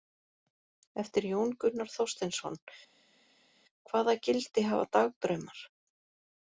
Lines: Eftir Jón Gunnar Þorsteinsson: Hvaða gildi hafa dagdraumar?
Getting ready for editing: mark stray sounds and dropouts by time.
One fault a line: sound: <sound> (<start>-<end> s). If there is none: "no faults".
no faults